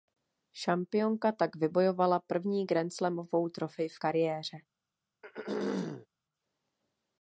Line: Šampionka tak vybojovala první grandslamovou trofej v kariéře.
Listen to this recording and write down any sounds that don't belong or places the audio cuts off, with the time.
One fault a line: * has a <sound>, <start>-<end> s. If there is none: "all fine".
* has a throat clearing, 5.2-6.1 s